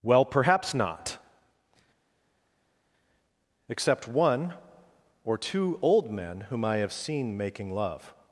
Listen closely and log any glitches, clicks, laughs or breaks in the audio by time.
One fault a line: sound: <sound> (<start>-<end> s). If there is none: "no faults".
no faults